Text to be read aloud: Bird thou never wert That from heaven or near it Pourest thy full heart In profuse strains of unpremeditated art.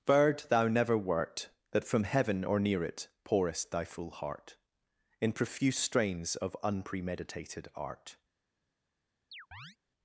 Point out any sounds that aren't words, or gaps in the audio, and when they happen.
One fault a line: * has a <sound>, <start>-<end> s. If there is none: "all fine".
* has a chirp, 9.3-9.8 s